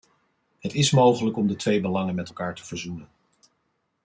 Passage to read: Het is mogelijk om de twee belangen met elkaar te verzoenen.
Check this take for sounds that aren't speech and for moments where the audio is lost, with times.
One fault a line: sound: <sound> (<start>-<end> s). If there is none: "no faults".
no faults